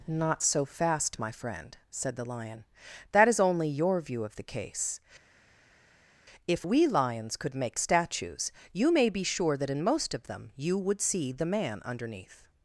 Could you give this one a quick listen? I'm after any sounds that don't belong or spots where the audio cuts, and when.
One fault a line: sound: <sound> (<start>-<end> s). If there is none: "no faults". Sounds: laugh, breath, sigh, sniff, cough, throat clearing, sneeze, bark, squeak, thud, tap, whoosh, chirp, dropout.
no faults